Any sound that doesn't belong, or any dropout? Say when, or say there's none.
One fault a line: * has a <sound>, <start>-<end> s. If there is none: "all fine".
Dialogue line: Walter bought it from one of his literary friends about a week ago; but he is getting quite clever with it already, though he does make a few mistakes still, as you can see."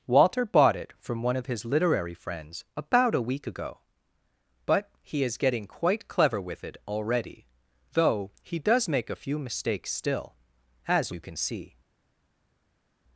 all fine